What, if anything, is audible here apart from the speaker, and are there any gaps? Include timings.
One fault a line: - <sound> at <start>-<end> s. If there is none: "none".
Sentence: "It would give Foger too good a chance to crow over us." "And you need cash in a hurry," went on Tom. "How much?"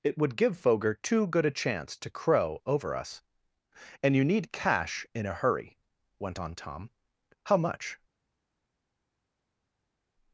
none